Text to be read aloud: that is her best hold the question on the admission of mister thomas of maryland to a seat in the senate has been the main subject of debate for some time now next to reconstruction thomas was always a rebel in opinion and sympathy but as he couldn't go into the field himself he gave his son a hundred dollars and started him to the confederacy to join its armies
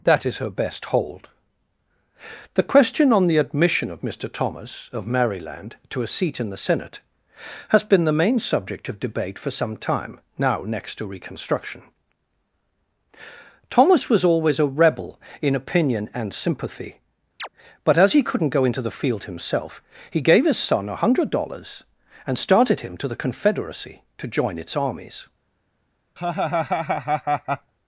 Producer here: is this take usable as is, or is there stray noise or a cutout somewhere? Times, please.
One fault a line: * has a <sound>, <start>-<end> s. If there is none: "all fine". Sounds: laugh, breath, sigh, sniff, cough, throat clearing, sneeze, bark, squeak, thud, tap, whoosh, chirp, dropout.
* has a chirp, 17.4-17.5 s
* has a laugh, 26.2-27.7 s